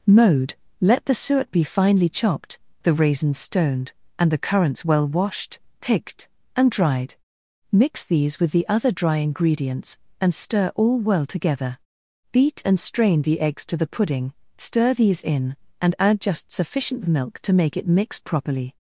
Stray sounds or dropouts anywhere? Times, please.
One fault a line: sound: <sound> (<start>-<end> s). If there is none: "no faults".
no faults